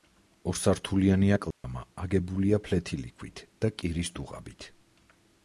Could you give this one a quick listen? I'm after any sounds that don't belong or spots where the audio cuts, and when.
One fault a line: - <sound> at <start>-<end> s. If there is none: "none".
- dropout at 1.5-1.6 s